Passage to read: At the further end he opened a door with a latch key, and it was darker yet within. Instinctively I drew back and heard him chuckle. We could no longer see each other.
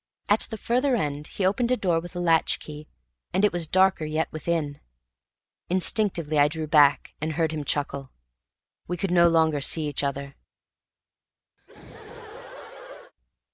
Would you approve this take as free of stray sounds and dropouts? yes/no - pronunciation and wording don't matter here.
no